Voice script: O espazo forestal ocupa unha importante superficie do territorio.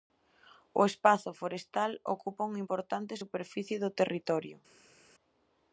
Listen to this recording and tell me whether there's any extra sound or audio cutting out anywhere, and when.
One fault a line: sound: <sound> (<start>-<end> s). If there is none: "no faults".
no faults